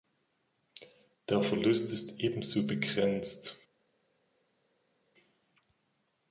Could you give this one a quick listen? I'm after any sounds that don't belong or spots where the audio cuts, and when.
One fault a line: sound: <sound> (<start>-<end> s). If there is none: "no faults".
no faults